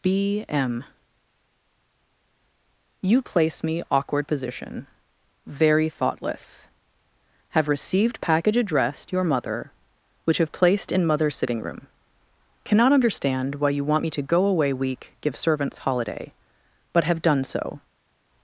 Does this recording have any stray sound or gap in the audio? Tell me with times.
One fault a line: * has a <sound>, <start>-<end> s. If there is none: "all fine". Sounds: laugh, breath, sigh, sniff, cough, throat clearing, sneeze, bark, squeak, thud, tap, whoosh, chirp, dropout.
all fine